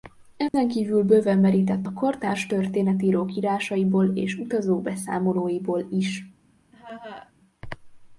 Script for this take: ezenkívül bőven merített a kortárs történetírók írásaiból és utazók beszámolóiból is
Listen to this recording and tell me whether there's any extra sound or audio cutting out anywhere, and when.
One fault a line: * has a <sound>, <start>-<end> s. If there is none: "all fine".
* has a dropout, 0.5-0.5 s
* has a laugh, 6.7-7.3 s